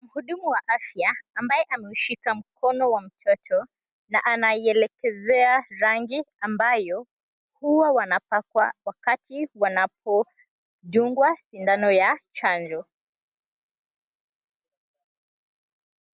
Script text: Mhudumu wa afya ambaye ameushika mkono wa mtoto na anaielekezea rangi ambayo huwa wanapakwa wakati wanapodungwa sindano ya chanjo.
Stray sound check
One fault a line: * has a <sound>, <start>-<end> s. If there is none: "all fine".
all fine